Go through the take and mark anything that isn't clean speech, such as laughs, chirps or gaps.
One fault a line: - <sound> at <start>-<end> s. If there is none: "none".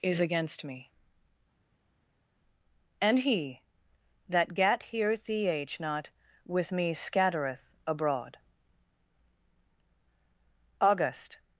none